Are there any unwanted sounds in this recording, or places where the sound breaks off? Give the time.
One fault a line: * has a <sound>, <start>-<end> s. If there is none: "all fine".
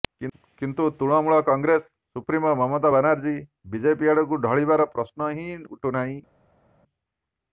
all fine